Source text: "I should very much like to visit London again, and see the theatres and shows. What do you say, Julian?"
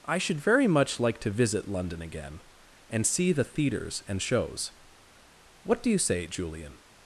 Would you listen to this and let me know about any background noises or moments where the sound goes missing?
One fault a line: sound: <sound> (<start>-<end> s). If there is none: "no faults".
no faults